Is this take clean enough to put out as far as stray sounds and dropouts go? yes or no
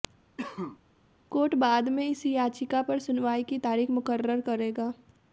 no